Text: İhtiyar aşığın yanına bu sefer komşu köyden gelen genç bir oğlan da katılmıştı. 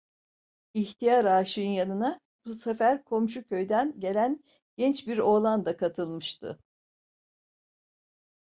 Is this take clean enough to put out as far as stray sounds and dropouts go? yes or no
yes